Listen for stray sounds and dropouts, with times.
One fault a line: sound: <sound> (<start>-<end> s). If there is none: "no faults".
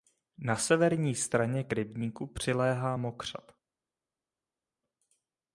no faults